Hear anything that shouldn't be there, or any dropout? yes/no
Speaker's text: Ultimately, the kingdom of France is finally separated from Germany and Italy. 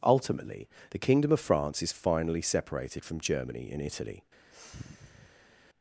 yes